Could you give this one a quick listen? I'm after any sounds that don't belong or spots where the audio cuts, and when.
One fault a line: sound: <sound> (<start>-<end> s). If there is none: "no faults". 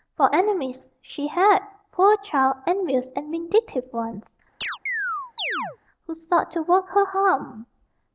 sound: chirp (4.6-5.8 s)